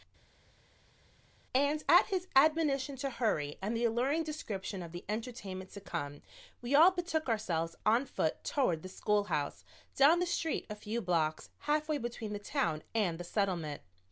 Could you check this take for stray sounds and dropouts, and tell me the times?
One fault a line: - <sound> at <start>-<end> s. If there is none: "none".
none